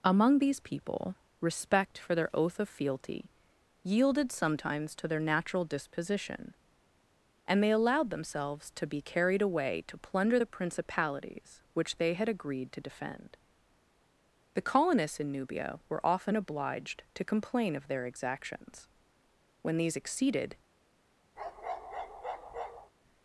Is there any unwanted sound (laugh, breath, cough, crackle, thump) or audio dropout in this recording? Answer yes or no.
yes